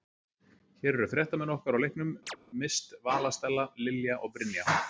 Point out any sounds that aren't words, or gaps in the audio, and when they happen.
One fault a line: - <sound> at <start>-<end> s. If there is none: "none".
- chirp at 2.3-2.4 s